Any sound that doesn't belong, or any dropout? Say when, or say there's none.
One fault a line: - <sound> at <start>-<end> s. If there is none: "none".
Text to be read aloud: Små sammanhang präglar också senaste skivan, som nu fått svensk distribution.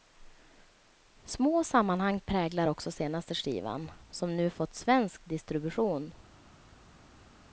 none